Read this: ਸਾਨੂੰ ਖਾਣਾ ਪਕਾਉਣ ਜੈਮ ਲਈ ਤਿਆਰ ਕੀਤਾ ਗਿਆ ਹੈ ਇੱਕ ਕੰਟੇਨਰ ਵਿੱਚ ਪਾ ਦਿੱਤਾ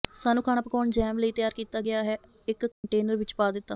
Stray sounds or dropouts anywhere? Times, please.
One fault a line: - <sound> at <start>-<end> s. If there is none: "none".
- dropout at 2.7-2.8 s